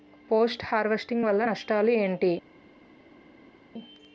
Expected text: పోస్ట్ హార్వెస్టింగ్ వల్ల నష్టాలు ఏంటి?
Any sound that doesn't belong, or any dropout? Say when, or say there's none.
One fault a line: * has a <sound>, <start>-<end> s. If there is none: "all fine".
all fine